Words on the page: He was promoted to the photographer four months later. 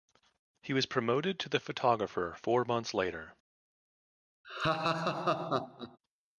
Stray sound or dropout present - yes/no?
yes